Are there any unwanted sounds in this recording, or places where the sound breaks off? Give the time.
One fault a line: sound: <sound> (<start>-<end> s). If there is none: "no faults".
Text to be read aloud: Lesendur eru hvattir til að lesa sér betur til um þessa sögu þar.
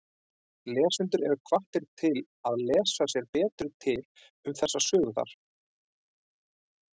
no faults